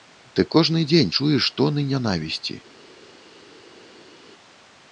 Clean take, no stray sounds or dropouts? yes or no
yes